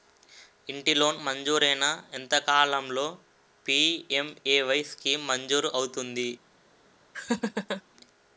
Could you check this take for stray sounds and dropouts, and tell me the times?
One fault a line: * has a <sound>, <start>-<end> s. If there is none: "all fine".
* has a laugh, 7.1-7.8 s